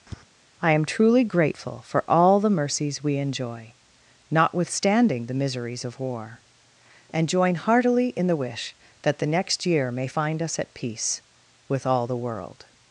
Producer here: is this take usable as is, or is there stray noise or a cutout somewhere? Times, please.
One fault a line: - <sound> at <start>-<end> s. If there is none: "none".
- tap at 0.1-0.2 s